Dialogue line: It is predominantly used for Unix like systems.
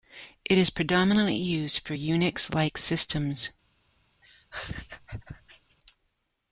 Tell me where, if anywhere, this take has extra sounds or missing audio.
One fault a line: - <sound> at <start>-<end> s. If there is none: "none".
- laugh at 4.2-5.8 s